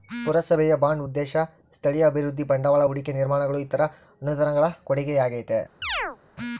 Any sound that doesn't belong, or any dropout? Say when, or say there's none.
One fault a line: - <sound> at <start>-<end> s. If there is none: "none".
- chirp at 5.8-6.2 s